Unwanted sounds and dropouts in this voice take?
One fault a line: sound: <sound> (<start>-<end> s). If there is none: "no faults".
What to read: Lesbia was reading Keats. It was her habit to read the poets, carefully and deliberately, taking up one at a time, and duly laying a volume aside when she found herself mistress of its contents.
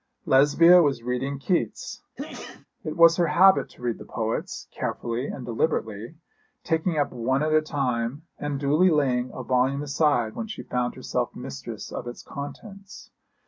sound: sneeze (2.2-2.7 s)